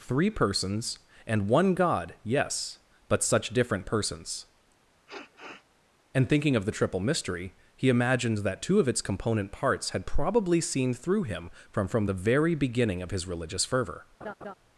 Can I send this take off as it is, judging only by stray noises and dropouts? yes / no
no